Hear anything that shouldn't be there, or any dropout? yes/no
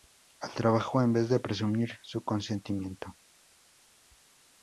no